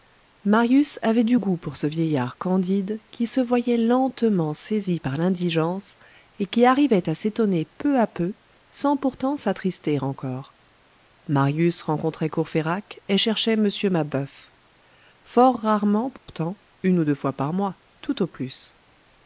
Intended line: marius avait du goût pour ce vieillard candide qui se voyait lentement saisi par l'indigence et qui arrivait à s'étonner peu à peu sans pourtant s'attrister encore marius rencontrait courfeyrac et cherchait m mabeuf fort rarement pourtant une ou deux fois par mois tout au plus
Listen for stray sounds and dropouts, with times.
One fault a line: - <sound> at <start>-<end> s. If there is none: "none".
- dropout at 16.2-16.3 s